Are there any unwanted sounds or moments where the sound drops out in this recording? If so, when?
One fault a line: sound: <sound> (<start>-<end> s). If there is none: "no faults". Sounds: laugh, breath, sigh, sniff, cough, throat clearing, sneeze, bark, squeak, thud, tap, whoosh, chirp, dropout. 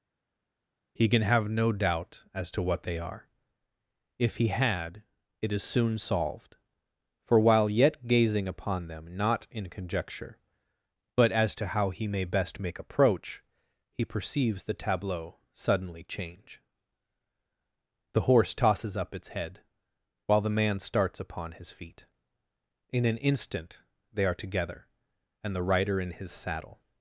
no faults